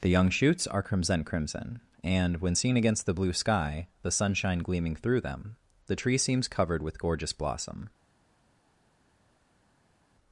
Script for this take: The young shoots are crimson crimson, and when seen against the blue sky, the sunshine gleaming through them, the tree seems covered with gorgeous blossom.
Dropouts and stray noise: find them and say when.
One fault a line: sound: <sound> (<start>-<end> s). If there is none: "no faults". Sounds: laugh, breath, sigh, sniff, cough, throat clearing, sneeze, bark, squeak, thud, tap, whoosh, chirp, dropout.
no faults